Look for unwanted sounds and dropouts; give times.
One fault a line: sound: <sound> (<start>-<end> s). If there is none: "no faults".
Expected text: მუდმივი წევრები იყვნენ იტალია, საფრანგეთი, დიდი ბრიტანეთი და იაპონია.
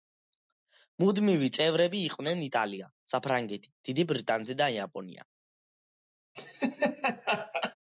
sound: laugh (6.3-7.7 s)